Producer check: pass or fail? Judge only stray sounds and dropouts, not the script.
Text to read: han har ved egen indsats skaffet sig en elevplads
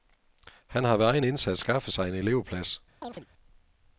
fail